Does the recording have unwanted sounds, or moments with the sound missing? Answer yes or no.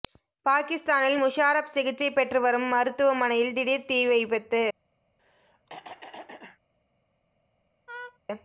yes